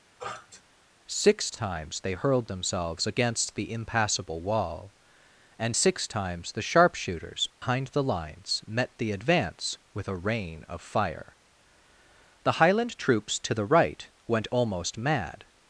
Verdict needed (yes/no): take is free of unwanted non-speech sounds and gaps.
no